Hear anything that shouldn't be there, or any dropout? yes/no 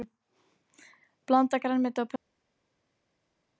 no